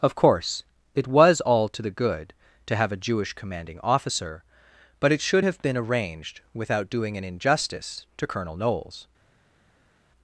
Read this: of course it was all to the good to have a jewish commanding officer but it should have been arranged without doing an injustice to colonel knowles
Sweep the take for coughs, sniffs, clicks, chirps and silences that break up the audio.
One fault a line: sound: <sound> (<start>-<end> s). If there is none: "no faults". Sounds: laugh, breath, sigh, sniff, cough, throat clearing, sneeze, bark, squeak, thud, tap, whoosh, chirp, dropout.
no faults